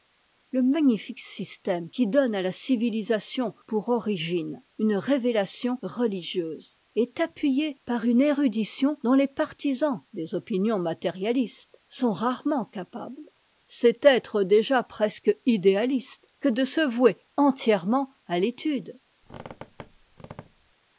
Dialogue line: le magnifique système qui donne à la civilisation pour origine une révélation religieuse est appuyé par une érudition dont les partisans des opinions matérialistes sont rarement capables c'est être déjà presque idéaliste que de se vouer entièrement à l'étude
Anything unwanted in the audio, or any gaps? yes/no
yes